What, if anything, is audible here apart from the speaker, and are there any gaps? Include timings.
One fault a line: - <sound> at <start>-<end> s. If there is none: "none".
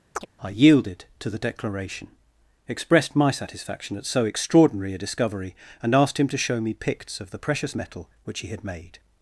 - chirp at 0.2-0.3 s